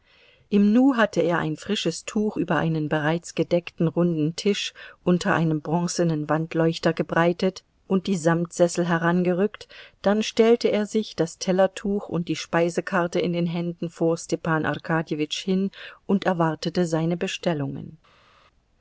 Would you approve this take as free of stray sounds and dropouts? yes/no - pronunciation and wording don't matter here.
yes